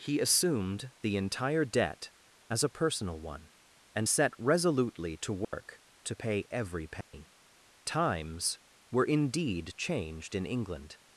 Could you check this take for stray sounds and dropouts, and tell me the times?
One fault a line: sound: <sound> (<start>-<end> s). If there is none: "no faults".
sound: dropout (5.4-5.5 s)
sound: dropout (7.0-7.1 s)